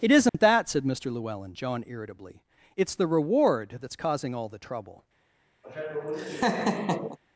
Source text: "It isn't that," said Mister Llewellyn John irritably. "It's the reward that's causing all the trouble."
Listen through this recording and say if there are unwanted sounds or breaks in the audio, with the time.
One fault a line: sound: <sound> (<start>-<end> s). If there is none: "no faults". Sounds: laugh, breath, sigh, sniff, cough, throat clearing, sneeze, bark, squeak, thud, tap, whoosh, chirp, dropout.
sound: dropout (0.3-0.3 s)
sound: laugh (5.6-7.2 s)